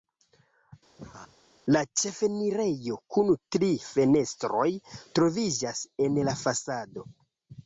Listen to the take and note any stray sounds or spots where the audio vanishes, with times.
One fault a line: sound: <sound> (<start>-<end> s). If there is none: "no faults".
sound: laugh (1.0-1.4 s)